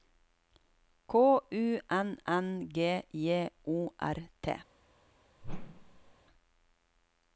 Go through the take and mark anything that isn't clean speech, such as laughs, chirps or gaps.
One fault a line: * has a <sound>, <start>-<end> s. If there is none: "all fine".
* has a whoosh, 5.4-6.1 s